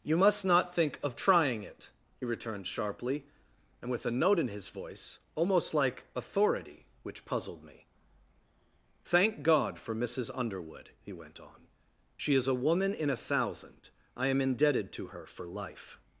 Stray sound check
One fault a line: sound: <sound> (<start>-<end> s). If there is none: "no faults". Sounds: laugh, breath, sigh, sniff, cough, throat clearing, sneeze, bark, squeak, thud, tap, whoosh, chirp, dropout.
no faults